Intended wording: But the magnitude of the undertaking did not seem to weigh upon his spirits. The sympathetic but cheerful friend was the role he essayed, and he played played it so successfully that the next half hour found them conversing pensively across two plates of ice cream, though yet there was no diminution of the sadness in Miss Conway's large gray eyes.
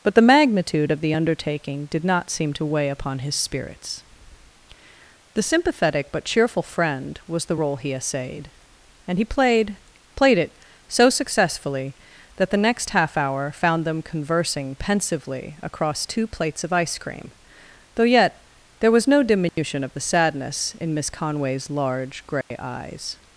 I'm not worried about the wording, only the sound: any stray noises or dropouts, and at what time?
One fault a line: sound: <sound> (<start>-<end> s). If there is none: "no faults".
sound: dropout (19.5-19.6 s)
sound: dropout (22.4-22.5 s)